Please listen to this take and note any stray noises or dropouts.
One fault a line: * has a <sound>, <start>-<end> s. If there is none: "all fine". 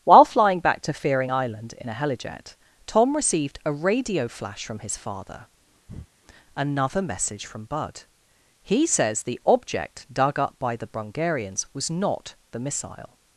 * has a breath, 5.9-6.1 s